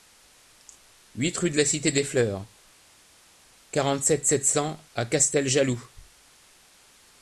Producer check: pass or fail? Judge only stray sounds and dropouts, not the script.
pass